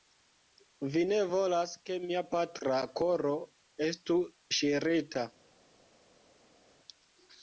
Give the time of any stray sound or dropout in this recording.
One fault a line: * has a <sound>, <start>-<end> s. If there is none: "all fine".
all fine